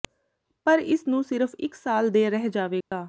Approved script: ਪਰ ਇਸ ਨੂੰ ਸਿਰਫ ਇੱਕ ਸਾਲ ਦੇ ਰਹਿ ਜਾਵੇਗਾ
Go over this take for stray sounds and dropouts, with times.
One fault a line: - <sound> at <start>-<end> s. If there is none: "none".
- dropout at 2.8-2.9 s